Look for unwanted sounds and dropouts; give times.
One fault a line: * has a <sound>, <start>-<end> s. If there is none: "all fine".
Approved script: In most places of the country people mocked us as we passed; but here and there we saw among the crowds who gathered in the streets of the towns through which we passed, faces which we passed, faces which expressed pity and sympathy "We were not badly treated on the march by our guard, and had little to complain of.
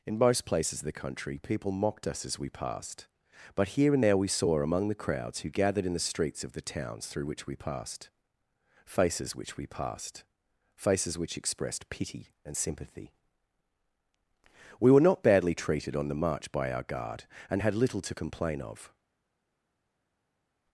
all fine